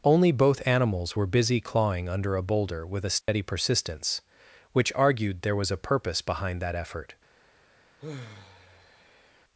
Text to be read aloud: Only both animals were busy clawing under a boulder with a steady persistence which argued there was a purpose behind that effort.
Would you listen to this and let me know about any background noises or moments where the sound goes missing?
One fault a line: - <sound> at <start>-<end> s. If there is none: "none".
- dropout at 3.2-3.3 s
- sigh at 8.0-9.4 s